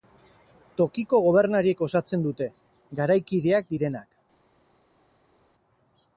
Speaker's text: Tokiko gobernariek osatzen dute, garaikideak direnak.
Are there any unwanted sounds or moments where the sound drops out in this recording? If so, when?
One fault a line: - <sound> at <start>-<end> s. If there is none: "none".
none